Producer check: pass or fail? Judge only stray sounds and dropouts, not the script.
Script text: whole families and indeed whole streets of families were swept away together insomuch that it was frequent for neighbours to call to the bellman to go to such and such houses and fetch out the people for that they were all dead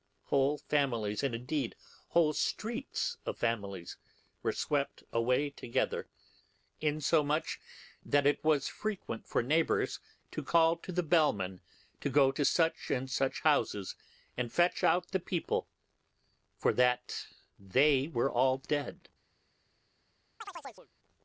fail